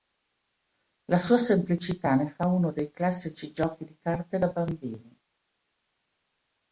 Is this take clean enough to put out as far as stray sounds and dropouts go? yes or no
yes